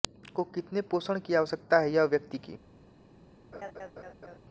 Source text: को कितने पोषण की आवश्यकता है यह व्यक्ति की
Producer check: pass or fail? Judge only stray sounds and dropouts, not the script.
fail